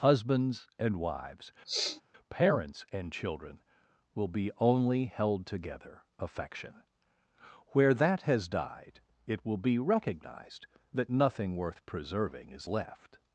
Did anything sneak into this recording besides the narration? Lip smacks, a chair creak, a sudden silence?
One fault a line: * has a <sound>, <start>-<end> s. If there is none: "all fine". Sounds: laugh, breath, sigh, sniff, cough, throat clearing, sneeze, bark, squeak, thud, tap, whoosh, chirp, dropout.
* has a sniff, 1.6-2.0 s